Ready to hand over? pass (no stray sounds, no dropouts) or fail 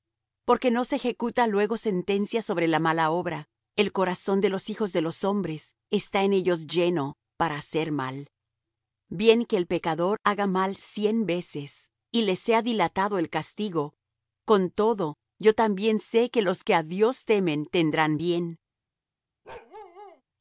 fail